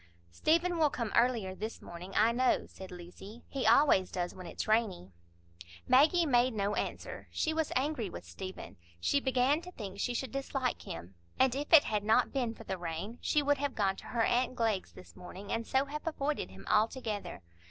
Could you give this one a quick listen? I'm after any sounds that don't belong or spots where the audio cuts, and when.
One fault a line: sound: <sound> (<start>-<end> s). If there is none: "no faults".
no faults